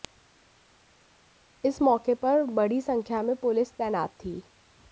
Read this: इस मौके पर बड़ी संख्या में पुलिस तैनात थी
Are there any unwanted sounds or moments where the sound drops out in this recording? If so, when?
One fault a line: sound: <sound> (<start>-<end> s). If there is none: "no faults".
no faults